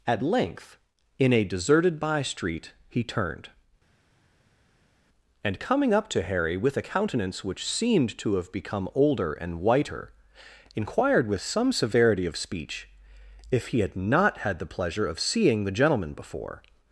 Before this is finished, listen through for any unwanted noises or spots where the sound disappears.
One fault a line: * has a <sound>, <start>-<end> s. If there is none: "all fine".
all fine